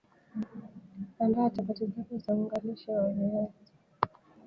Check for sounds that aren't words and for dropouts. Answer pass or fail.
pass